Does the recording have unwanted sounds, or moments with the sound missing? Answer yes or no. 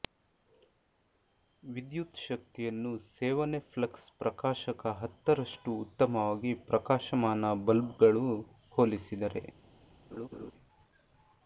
yes